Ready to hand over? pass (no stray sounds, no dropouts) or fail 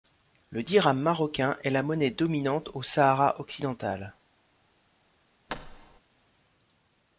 fail